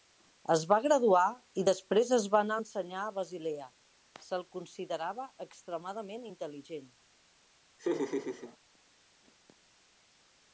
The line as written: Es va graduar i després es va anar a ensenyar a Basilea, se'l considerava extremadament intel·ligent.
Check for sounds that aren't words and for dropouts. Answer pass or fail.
fail